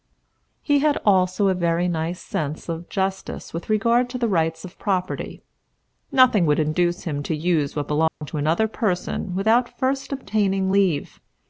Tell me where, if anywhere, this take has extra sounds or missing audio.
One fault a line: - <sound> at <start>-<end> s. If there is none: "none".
- dropout at 8.1-8.2 s